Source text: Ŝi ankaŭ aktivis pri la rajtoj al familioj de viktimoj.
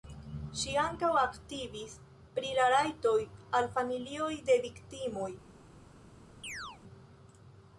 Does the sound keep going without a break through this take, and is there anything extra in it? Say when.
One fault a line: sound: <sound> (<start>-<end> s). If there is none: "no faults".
sound: chirp (6.4-6.8 s)